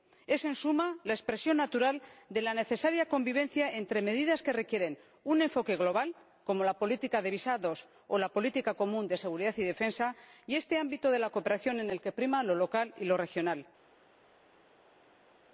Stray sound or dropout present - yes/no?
no